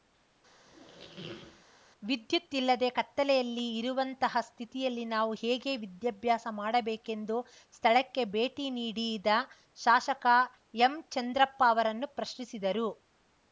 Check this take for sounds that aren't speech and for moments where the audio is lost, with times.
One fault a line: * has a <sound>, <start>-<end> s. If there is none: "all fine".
* has a squeak, 0.6-1.6 s